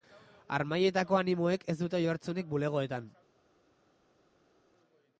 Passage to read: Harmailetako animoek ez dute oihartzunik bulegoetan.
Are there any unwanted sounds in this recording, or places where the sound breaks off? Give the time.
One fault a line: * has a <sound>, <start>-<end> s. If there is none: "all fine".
all fine